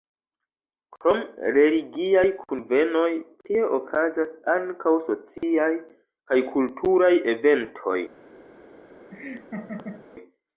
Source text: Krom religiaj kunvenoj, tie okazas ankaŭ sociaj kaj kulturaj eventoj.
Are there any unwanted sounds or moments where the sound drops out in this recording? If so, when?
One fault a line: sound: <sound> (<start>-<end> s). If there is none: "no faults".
sound: dropout (5.4-5.4 s)
sound: laugh (9.1-10.1 s)